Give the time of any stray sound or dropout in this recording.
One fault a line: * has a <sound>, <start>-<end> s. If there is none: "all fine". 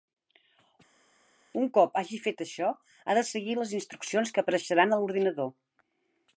all fine